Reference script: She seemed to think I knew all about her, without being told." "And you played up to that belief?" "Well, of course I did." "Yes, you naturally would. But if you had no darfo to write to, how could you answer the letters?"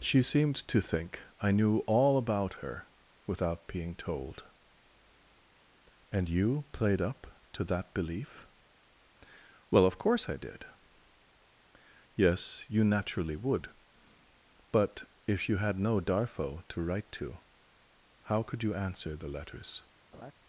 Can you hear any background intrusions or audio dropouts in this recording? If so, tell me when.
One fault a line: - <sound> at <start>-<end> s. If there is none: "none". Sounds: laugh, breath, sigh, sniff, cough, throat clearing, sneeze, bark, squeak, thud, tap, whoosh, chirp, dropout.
- laugh at 20.1-20.3 s